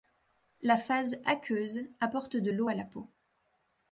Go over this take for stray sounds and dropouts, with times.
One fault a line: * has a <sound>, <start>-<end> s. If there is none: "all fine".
all fine